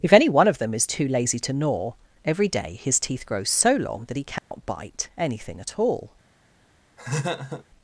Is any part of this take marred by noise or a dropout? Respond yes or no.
yes